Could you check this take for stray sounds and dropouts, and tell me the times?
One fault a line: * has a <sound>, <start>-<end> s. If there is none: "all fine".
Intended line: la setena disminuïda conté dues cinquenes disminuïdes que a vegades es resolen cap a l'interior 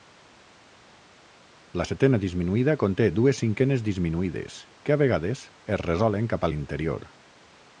all fine